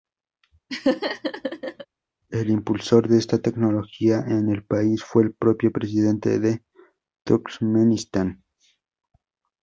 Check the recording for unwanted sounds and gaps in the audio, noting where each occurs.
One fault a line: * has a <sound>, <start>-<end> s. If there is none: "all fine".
* has a laugh, 0.7-1.9 s